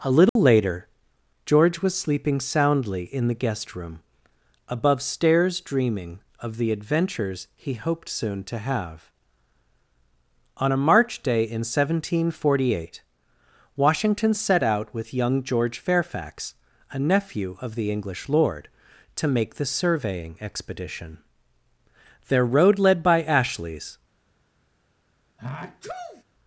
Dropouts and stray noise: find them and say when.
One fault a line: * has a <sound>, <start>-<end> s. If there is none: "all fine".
* has a dropout, 0.3-0.4 s
* has a sneeze, 25.4-26.2 s